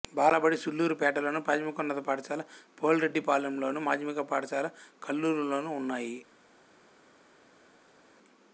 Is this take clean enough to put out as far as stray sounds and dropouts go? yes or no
yes